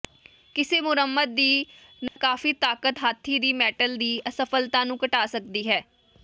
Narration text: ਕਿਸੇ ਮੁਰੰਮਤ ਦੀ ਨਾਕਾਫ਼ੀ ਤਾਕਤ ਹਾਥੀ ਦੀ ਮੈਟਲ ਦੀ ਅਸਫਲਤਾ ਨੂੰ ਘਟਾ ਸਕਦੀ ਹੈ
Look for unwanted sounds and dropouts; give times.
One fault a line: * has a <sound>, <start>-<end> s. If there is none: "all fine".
* has a dropout, 2.1-2.2 s